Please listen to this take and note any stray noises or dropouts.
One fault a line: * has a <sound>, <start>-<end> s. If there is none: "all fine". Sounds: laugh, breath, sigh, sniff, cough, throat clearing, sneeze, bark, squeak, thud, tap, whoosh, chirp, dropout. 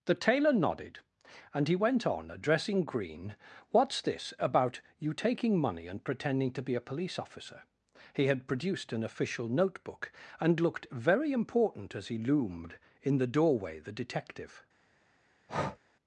* has a breath, 15.5-15.8 s